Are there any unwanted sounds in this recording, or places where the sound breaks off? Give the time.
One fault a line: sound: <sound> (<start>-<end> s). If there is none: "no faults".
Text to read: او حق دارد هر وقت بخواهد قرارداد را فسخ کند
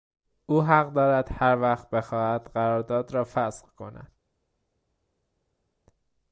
no faults